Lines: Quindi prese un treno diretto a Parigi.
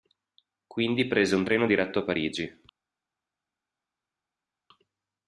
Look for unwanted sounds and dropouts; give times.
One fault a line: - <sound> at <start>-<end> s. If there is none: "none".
none